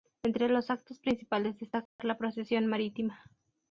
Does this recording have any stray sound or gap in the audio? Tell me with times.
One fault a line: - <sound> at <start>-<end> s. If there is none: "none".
- dropout at 1.9-2.0 s